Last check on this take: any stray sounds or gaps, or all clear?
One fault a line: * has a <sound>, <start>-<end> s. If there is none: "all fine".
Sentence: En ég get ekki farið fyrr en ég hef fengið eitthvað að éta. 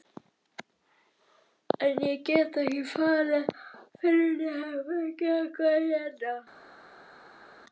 all fine